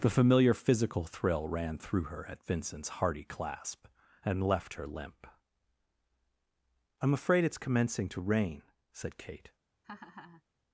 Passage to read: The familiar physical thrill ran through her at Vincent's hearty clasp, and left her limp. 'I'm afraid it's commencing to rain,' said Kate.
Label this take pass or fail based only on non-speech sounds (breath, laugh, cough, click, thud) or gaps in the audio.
fail